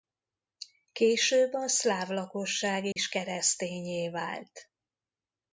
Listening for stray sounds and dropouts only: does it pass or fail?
fail